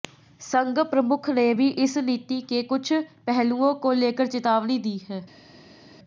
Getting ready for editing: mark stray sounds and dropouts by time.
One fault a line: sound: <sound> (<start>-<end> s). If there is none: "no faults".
no faults